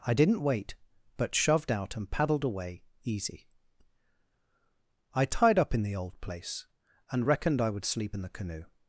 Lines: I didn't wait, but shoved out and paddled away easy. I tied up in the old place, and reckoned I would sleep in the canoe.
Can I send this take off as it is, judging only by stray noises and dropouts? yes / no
yes